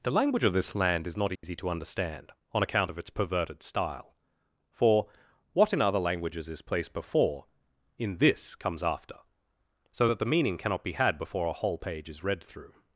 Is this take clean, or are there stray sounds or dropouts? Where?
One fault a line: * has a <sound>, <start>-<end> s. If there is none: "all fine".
* has a dropout, 1.4-1.4 s